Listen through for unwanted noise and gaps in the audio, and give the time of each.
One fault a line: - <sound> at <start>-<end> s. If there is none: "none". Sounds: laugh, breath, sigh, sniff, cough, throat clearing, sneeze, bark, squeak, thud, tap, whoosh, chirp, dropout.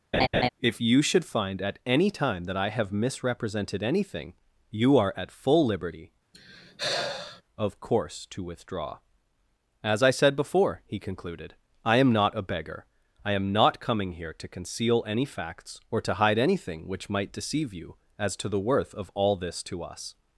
- laugh at 0.1-0.5 s
- sigh at 6.3-7.4 s